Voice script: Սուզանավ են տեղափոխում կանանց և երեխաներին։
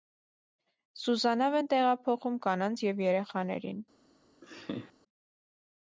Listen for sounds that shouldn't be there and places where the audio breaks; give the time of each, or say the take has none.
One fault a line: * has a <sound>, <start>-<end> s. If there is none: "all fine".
* has a laugh, 4.4-4.9 s